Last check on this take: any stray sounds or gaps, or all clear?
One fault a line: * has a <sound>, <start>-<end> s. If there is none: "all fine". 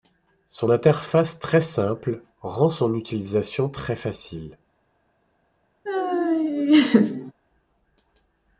* has a laugh, 5.8-7.3 s